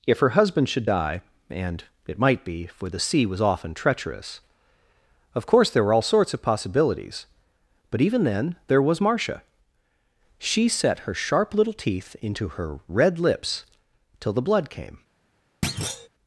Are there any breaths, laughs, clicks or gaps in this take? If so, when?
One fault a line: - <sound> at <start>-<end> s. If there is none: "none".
- thud at 15.6-16.1 s